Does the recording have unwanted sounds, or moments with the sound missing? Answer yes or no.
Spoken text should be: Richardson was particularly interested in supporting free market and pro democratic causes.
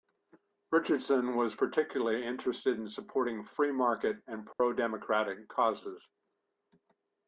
yes